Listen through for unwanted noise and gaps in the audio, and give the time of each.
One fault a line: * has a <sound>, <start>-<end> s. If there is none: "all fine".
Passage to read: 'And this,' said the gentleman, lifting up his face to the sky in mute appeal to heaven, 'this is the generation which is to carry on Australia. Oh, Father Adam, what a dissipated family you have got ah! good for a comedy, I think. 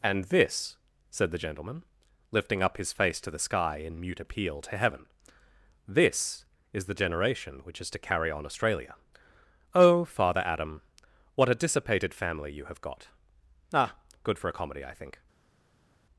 all fine